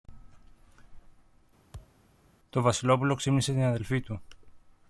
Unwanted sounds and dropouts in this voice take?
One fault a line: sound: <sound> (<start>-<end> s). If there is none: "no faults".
sound: thud (1.7-2.0 s)